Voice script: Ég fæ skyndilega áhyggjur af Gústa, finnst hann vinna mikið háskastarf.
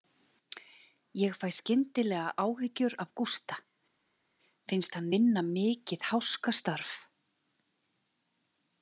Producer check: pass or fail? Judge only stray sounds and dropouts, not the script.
pass